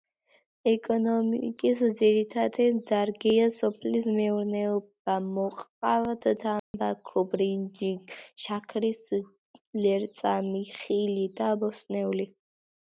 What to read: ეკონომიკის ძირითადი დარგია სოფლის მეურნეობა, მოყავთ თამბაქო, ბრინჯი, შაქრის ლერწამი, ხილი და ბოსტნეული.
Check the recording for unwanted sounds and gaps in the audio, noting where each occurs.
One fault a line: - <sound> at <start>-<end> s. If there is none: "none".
- dropout at 6.6-6.7 s